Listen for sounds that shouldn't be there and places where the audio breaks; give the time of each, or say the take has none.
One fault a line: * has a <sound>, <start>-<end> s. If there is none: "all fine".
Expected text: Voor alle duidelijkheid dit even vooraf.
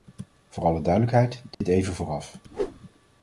* has a dropout, 1.5-1.6 s
* has a whoosh, 2.5-2.8 s